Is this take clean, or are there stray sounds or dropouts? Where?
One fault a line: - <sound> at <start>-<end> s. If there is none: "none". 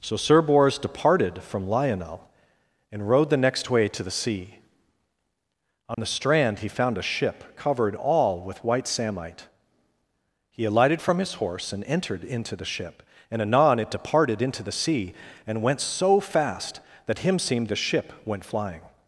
- dropout at 5.9-6.0 s